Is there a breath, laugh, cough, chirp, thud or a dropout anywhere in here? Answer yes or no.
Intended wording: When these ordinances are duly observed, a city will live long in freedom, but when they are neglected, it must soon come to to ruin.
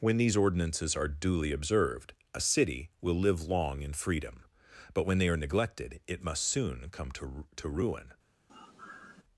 yes